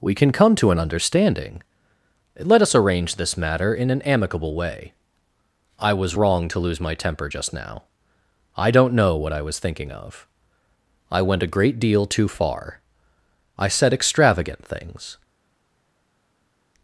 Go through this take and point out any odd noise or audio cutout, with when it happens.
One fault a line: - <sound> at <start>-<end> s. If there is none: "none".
none